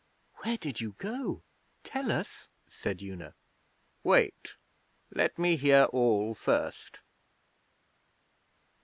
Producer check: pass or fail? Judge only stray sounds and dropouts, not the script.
pass